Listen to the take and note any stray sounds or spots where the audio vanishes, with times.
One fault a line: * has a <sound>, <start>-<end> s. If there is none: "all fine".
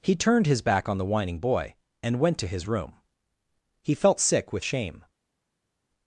all fine